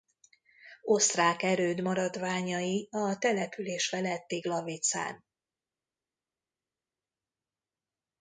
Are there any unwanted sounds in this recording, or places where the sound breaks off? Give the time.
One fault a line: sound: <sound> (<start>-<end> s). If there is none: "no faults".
no faults